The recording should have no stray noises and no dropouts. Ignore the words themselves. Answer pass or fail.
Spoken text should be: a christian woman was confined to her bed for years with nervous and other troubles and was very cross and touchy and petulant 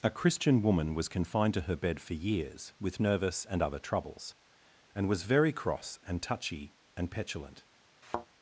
fail